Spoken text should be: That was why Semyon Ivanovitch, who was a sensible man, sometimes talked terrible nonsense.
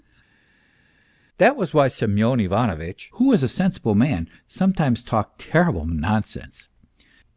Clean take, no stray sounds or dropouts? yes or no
yes